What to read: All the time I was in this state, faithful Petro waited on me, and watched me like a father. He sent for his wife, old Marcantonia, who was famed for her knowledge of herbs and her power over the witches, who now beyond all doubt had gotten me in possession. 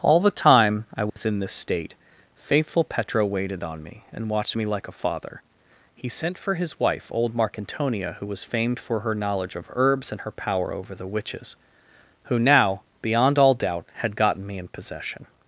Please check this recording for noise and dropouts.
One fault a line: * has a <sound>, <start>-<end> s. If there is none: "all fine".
* has a dropout, 1.1-1.2 s